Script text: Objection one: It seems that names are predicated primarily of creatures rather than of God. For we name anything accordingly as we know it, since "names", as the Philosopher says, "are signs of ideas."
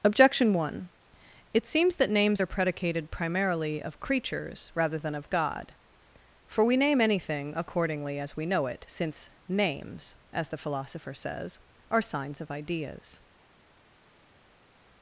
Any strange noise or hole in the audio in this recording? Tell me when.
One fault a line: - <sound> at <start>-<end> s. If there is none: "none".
none